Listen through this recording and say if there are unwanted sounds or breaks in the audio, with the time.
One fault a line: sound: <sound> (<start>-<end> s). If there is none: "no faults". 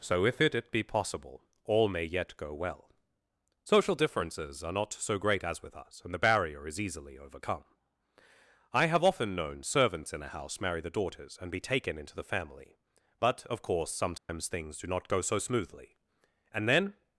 sound: dropout (14.2-14.3 s)